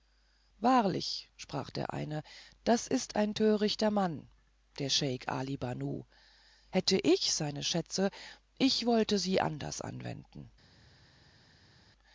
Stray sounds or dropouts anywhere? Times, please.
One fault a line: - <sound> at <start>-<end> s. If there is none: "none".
none